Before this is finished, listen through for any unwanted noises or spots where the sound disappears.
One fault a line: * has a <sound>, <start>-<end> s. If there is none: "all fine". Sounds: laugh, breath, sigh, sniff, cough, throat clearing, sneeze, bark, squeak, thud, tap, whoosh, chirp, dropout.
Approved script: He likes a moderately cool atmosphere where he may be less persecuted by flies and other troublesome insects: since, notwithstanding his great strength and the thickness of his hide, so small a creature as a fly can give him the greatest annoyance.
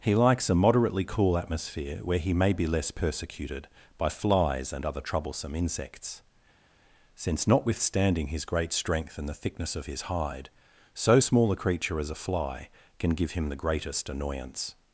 all fine